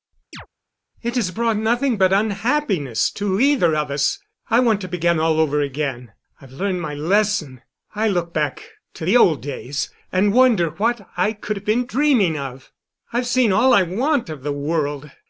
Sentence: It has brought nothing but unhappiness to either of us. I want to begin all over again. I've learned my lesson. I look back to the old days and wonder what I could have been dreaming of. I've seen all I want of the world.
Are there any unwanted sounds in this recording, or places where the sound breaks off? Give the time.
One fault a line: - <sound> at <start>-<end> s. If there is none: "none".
- chirp at 0.3-0.5 s